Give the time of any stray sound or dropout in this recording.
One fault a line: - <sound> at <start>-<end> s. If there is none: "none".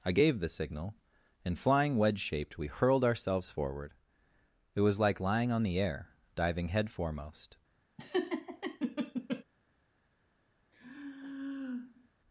- laugh at 8.0-9.4 s
- sigh at 10.7-12.1 s